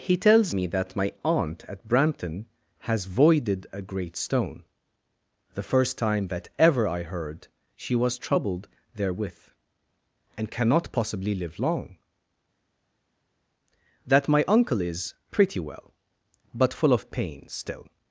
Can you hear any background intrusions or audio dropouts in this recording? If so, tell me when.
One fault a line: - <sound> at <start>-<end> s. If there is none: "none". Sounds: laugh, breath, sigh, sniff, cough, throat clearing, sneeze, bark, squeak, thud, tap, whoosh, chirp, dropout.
none